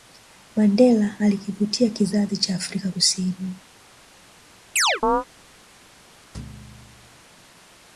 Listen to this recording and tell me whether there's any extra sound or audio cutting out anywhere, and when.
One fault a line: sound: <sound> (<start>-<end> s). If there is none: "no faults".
sound: chirp (4.8-5.3 s)
sound: thud (6.3-7.2 s)